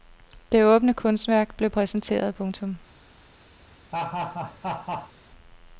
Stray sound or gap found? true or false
true